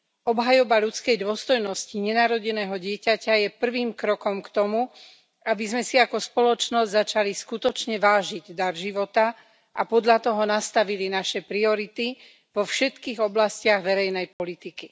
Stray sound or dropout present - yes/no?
yes